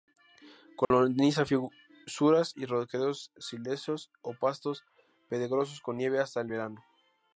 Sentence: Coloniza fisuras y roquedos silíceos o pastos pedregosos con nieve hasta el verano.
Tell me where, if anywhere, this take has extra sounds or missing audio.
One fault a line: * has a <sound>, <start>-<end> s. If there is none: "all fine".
* has a dropout, 0.8-0.9 s